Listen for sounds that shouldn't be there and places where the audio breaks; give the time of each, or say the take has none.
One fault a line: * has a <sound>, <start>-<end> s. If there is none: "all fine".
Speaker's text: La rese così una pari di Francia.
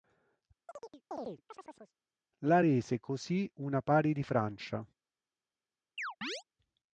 * has a chirp, 0.7-1.9 s
* has a chirp, 6.0-6.4 s